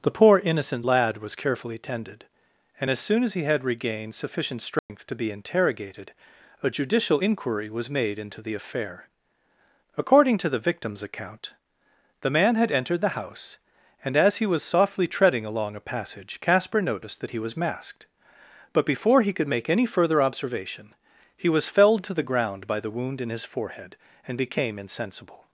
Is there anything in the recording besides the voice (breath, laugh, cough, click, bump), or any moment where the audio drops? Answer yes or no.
yes